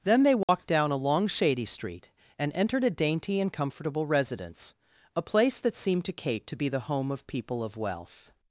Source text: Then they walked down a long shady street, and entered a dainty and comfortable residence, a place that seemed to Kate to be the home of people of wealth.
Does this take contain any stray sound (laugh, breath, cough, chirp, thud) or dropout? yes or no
yes